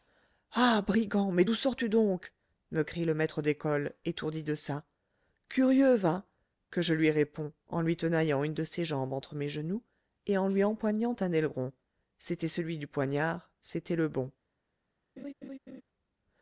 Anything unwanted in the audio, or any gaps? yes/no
yes